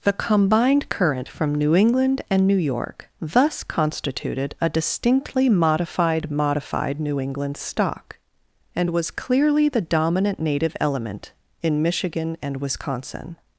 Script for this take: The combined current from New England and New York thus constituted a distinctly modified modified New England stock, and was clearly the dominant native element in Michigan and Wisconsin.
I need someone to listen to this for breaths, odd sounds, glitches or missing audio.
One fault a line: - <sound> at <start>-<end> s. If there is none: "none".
none